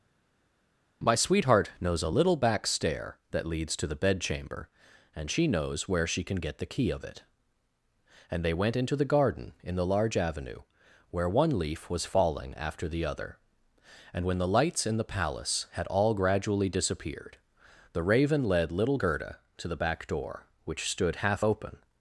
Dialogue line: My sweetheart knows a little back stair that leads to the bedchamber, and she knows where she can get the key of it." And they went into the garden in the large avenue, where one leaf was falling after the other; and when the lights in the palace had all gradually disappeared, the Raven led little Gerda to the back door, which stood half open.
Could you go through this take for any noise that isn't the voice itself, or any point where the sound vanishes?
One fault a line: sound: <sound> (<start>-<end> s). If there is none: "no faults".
no faults